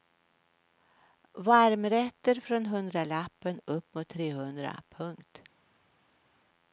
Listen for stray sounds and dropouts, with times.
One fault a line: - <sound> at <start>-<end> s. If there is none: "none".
none